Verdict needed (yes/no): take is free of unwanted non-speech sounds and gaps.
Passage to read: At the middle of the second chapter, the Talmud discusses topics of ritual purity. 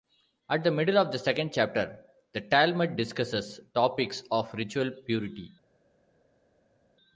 yes